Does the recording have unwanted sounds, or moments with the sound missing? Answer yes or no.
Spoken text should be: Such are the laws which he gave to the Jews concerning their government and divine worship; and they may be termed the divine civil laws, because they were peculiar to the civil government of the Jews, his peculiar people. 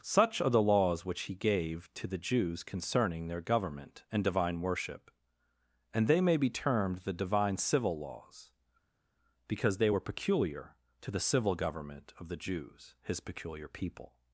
no